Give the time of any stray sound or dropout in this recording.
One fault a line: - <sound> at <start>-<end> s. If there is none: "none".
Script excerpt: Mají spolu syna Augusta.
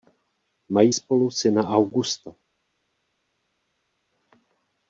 none